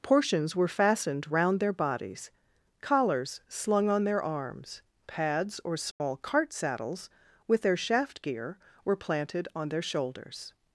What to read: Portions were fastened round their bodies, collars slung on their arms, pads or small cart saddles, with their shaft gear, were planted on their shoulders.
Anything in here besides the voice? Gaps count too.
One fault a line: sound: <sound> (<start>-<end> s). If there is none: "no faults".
sound: dropout (5.9-6.0 s)